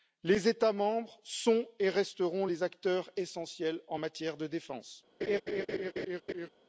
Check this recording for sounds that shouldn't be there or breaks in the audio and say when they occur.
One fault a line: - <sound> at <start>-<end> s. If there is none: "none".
- laugh at 5.2-6.5 s